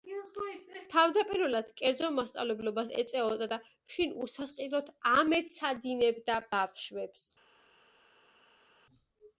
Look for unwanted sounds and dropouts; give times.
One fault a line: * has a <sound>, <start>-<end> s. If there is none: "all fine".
all fine